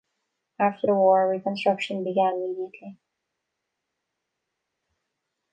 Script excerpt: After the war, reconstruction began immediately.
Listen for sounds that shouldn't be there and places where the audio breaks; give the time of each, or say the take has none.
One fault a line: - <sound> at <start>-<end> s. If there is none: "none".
none